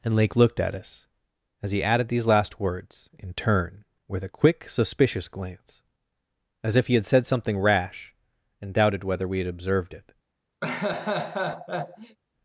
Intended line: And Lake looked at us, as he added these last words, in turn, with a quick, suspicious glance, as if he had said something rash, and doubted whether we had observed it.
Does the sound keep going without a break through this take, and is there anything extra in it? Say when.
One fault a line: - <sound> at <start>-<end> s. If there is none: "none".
- laugh at 10.6-12.2 s